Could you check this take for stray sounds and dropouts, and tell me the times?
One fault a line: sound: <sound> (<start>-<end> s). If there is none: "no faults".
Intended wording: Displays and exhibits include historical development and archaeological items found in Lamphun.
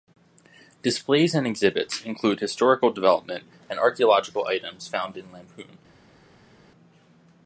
no faults